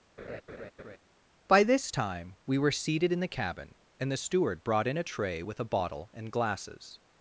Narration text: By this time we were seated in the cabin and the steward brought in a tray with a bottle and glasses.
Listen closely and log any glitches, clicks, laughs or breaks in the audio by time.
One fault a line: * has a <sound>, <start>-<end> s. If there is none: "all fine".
* has a laugh, 0.2-1.0 s